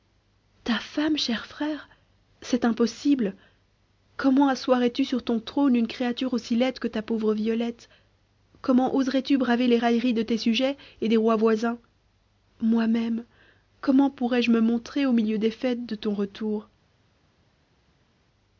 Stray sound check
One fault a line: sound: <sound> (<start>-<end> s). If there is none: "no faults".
no faults